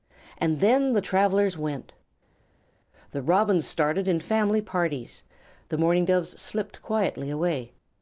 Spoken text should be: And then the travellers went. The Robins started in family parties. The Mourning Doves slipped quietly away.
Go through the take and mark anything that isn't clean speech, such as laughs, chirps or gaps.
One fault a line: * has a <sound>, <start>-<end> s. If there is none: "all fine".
all fine